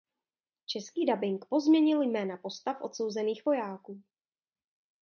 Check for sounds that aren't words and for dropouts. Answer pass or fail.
pass